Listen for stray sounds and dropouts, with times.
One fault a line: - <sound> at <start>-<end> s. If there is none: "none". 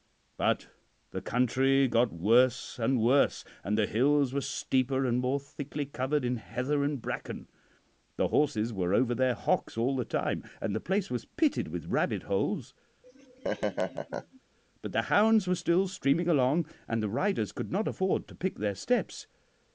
- laugh at 13.0-14.4 s